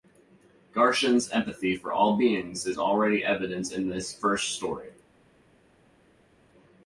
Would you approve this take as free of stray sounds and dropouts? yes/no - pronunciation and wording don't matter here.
yes